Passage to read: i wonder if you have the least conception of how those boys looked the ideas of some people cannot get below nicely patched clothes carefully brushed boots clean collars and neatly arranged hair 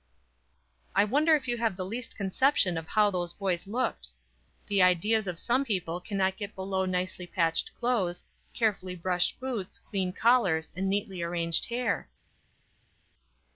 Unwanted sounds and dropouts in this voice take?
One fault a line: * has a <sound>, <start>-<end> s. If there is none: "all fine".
all fine